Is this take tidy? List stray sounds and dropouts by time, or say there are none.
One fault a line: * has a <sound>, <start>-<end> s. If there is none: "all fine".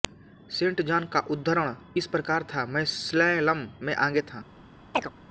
* has a chirp, 4.9-5.1 s